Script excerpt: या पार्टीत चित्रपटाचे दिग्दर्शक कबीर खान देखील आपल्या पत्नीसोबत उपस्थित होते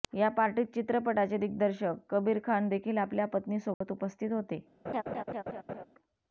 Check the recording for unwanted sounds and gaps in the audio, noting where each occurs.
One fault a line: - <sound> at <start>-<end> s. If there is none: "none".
- dropout at 3.7-3.8 s
- laugh at 4.8-5.8 s